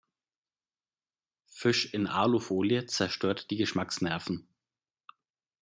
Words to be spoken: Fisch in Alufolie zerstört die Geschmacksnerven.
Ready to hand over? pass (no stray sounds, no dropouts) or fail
pass